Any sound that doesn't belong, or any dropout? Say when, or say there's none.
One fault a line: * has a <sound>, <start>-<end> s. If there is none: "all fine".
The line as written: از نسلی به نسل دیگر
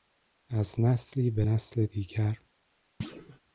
* has a thud, 3.0-3.4 s